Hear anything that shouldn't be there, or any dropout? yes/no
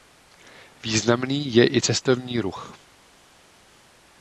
no